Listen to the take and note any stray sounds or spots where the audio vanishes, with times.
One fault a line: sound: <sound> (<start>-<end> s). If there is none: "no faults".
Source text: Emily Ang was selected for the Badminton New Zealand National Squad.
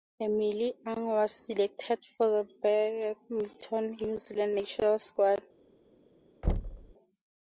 sound: thud (6.4-6.9 s)